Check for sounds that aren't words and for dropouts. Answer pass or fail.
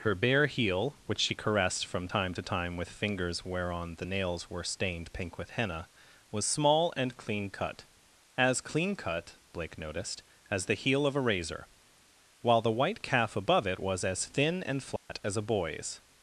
fail